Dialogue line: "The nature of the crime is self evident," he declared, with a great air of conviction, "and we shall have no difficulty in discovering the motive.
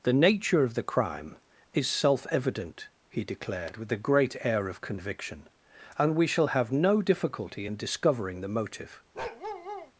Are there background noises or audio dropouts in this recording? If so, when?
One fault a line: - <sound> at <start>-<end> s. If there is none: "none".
- bark at 9.1-9.9 s